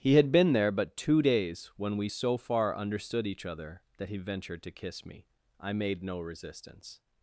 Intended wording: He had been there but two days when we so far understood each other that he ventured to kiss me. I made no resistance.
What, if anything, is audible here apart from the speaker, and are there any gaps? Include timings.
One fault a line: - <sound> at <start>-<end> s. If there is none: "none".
none